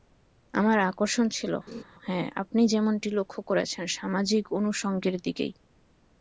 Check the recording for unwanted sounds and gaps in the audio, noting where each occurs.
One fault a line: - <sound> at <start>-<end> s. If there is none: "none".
- laugh at 1.7-1.8 s